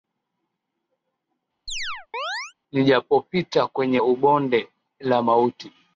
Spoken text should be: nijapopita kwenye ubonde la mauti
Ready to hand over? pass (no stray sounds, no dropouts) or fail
fail